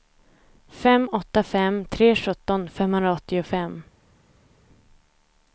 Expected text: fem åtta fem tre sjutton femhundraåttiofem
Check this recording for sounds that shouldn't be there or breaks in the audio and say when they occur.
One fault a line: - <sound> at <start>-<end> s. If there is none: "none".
none